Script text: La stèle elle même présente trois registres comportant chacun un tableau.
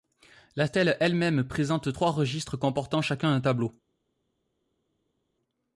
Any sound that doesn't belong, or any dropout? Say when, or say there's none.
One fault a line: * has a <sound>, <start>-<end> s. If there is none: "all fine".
all fine